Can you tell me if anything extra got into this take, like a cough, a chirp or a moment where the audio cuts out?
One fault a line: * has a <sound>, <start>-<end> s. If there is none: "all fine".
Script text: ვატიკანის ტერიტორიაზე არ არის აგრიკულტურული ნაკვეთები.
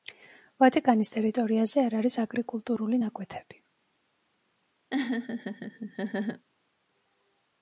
* has a laugh, 4.9-6.4 s